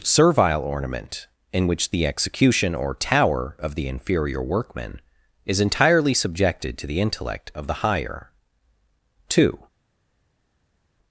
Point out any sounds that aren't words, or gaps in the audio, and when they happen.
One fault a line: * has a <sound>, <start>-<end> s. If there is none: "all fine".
all fine